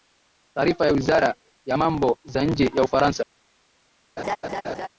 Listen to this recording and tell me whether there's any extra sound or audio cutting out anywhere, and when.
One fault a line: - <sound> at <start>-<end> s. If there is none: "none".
- laugh at 4.2-4.9 s